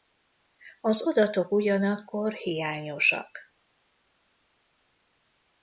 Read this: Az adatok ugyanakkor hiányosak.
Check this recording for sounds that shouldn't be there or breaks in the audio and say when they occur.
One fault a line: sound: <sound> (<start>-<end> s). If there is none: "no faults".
no faults